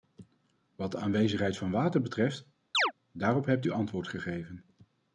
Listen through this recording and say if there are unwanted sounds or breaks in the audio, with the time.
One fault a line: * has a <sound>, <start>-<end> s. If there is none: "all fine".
* has a chirp, 2.7-2.9 s